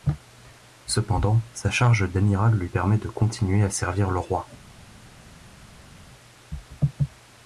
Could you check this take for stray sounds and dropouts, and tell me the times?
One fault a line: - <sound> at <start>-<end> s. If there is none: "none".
none